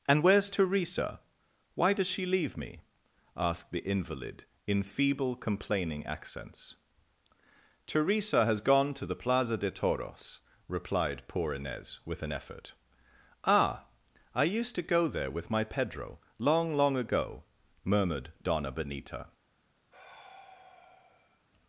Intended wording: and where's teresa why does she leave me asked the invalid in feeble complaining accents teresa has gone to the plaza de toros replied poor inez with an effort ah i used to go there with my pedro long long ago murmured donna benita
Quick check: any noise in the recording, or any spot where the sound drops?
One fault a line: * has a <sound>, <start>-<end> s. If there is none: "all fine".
* has a sigh, 19.9-21.5 s